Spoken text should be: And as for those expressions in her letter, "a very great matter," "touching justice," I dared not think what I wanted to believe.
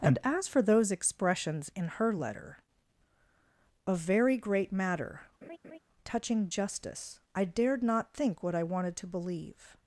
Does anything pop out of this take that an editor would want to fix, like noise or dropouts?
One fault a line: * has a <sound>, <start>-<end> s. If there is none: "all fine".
* has a laugh, 5.4-5.8 s